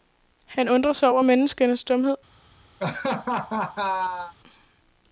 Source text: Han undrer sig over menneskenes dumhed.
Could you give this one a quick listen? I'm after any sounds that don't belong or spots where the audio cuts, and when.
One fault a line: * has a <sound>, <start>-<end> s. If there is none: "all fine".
* has a laugh, 2.8-4.3 s